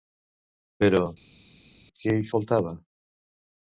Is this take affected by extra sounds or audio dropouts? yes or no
no